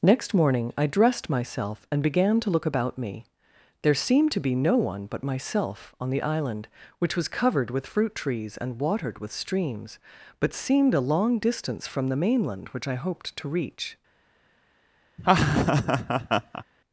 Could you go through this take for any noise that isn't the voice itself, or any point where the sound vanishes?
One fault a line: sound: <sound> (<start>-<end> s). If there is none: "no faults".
sound: laugh (15.2-16.6 s)